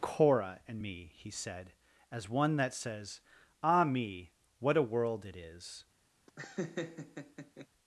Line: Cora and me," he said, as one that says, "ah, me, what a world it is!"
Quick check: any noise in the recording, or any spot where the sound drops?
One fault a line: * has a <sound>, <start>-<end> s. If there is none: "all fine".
* has a laugh, 6.3-7.7 s